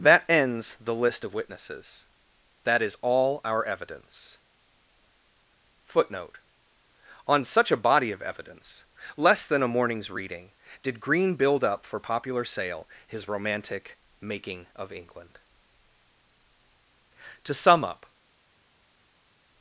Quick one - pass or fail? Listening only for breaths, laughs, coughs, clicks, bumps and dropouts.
pass